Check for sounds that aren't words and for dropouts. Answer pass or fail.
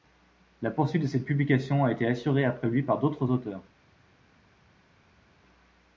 pass